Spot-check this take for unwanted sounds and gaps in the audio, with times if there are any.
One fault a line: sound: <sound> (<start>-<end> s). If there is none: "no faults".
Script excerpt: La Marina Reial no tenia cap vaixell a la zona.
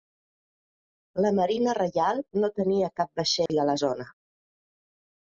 sound: dropout (3.5-3.5 s)